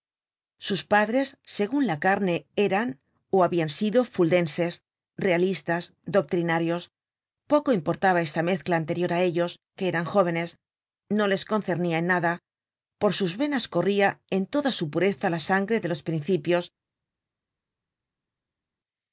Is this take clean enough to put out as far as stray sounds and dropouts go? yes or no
yes